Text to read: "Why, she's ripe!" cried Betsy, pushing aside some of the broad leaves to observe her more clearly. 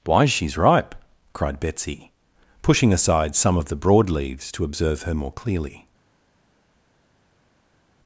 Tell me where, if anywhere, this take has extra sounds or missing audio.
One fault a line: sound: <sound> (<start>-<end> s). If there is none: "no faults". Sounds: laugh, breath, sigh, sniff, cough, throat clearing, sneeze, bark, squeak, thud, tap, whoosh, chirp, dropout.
no faults